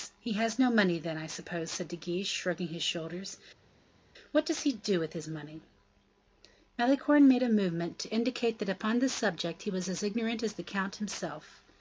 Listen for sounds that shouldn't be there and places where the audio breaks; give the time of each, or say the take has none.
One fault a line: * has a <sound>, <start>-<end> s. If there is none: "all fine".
all fine